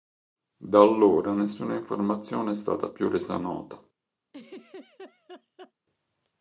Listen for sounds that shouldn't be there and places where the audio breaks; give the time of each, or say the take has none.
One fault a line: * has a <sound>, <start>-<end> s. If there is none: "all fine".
* has a laugh, 4.3-5.7 s